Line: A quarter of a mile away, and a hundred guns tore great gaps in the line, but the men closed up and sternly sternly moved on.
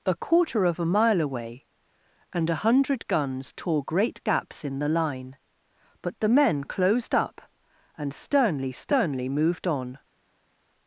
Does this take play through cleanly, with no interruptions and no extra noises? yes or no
yes